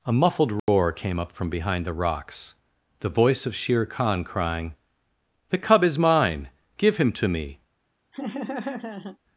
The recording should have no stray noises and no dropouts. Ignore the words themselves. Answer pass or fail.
fail